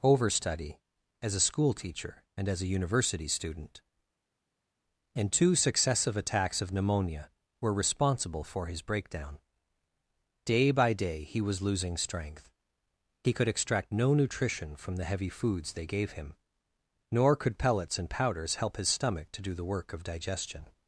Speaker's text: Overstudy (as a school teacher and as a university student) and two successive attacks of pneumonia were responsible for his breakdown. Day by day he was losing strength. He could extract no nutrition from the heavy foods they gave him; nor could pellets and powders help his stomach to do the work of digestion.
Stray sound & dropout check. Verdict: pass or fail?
pass